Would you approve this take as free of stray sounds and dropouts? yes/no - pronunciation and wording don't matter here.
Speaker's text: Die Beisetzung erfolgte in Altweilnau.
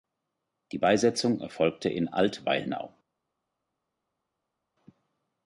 yes